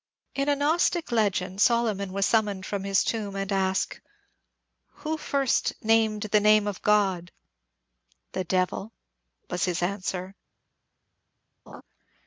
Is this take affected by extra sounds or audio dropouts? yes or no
yes